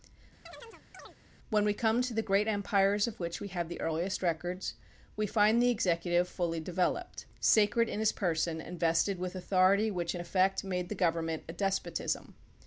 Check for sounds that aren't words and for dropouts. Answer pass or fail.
fail